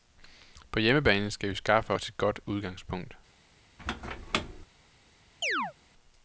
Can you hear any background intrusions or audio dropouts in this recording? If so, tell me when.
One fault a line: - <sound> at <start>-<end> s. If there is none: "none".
- squeak at 3.8-4.7 s
- chirp at 5.4-5.7 s